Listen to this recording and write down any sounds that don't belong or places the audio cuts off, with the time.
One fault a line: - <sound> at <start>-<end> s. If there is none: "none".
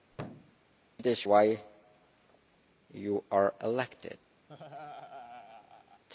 - thud at 0.1-0.6 s
- laugh at 4.5-6.0 s